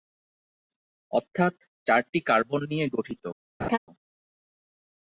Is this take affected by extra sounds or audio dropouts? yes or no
yes